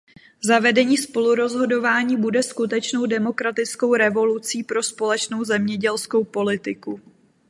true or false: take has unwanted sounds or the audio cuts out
false